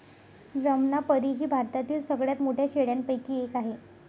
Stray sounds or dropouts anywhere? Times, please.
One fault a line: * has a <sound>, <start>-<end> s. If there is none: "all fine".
all fine